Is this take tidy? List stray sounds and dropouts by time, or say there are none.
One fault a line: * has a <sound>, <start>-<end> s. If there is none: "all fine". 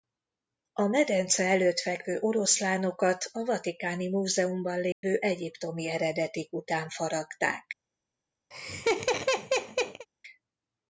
* has a dropout, 4.9-5.0 s
* has a laugh, 8.5-10.1 s